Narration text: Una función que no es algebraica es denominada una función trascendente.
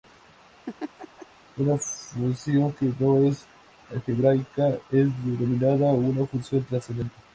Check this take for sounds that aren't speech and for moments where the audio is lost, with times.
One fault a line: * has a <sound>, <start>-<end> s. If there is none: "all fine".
* has a laugh, 0.7-1.3 s